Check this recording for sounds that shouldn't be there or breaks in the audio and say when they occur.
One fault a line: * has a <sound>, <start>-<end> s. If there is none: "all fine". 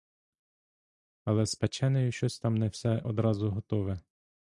all fine